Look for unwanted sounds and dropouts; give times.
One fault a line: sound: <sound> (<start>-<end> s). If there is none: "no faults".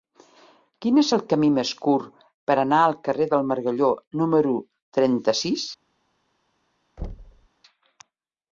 sound: thud (7.0-7.5 s)